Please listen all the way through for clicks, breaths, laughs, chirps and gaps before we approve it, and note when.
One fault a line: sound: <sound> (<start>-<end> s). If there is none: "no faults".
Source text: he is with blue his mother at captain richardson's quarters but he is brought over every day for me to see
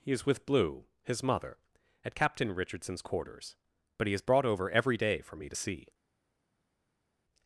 no faults